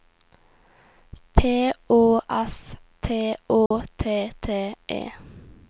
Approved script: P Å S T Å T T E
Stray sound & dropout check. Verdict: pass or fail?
fail